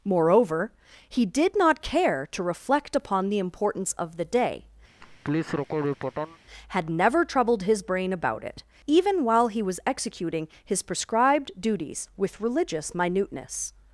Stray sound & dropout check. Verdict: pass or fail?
fail